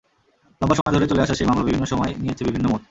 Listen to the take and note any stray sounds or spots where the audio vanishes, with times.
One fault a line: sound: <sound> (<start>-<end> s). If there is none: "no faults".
sound: dropout (0.8-0.9 s)